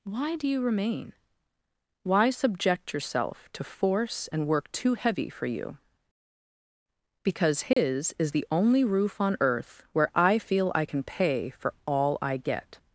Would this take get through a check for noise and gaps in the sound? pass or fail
fail